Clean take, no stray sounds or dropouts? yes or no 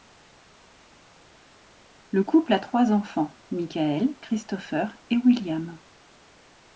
yes